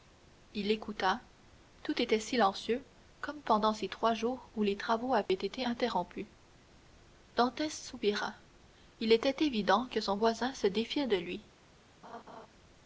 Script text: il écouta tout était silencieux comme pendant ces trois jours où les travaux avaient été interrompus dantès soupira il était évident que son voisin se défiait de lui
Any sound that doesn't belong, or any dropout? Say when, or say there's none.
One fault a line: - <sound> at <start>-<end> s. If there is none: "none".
- dropout at 5.3-5.3 s
- laugh at 12.0-12.5 s